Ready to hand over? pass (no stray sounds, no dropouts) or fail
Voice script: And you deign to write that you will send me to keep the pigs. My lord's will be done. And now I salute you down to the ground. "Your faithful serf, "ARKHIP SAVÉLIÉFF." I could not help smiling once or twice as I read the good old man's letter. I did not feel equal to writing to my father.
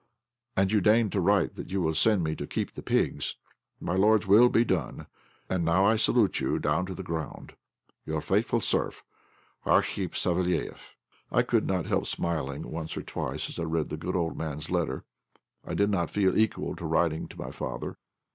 pass